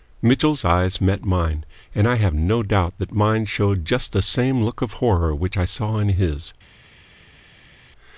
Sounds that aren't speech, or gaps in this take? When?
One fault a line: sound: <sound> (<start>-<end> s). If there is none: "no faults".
no faults